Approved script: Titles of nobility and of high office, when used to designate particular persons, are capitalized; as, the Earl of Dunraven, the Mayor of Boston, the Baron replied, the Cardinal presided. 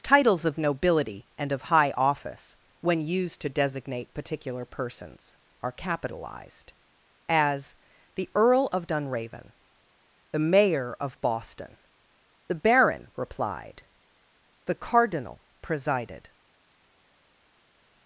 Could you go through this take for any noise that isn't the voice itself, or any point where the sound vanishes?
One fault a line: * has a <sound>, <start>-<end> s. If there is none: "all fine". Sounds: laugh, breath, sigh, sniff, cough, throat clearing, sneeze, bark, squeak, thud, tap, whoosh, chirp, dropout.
all fine